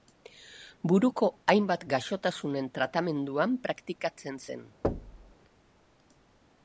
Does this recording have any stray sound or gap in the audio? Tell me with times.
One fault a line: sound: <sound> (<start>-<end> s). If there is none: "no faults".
sound: thud (4.8-5.3 s)